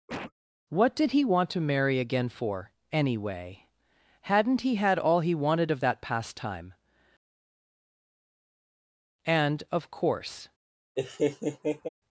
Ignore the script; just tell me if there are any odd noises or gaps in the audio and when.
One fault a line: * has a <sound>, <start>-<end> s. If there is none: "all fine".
* has a cough, 0.1-0.3 s
* has a laugh, 11.0-11.9 s